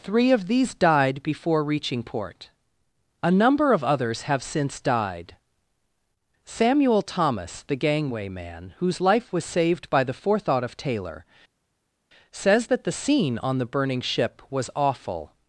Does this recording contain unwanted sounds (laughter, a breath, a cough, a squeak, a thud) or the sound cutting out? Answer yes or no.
no